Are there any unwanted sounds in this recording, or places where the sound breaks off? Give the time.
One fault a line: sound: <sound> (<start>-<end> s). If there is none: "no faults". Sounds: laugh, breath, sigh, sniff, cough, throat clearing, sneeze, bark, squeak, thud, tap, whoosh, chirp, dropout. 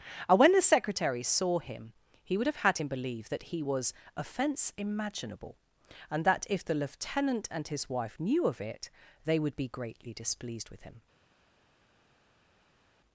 no faults